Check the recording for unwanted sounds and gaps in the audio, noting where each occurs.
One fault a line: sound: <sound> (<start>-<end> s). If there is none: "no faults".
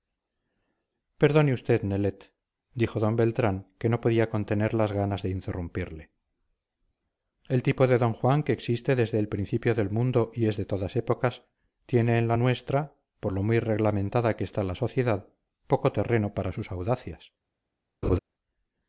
sound: laugh (18.0-18.2 s)